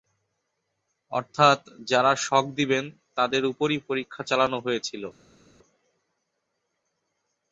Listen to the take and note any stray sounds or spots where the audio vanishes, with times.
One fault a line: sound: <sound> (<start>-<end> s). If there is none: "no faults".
no faults